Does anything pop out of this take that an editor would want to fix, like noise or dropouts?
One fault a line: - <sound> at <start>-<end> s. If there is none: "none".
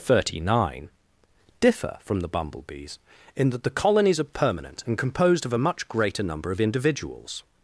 none